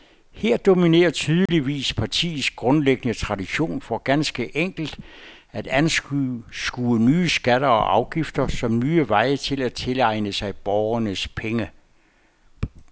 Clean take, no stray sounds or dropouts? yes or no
no